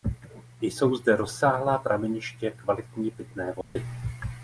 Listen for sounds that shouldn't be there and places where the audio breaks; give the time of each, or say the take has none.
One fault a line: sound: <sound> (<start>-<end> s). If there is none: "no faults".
sound: dropout (3.6-3.8 s)